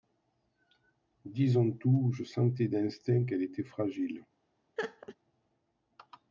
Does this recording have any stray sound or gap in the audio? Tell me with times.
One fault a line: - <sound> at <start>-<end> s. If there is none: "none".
- laugh at 4.8-5.2 s